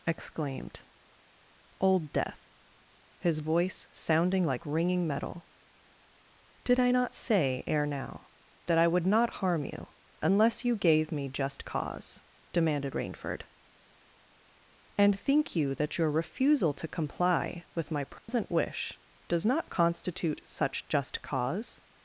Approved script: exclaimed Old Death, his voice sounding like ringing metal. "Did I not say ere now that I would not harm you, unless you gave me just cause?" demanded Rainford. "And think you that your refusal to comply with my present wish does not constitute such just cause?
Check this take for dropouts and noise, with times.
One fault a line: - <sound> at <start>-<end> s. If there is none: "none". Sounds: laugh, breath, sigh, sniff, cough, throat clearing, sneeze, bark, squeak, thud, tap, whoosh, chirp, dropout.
- dropout at 18.2-18.3 s